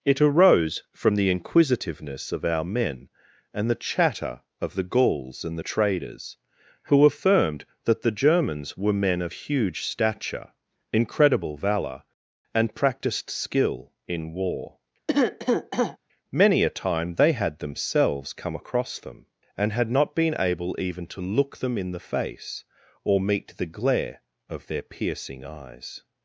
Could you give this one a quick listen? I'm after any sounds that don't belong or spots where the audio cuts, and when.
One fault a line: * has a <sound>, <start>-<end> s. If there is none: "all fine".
* has a cough, 15.1-16.0 s